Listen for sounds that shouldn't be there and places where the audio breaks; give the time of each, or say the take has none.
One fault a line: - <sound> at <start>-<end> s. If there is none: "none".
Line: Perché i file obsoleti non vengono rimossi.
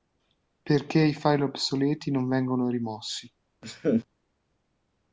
- laugh at 3.6-4.0 s